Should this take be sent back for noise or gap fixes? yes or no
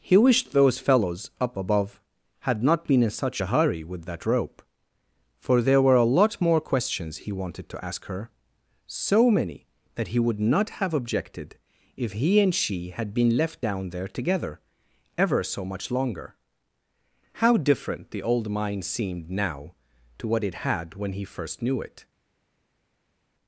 no